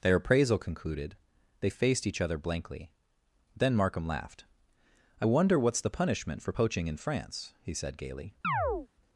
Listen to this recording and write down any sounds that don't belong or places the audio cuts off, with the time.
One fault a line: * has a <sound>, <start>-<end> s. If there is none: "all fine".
* has a chirp, 8.4-8.9 s